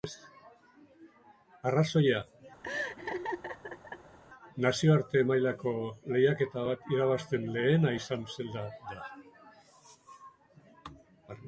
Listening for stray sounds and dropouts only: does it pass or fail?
fail